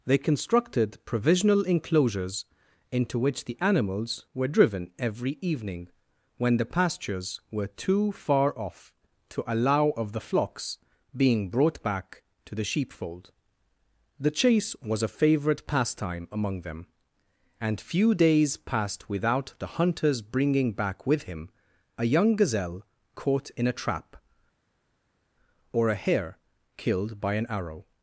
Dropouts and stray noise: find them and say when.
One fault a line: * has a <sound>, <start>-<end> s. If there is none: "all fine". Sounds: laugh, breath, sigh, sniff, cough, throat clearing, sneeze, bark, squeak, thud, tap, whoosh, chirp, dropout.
all fine